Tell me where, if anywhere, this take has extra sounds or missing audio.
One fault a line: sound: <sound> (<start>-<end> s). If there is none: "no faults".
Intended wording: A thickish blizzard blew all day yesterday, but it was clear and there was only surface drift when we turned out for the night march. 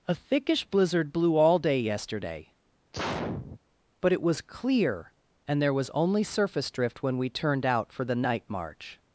sound: sneeze (2.9-3.6 s)